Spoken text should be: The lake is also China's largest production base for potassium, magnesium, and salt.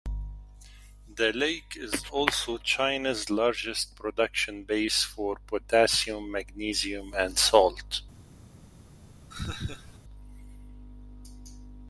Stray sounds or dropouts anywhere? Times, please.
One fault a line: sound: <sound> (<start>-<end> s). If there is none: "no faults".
sound: laugh (9.3-10.0 s)